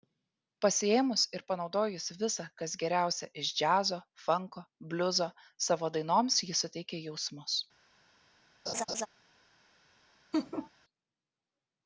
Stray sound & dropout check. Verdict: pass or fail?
fail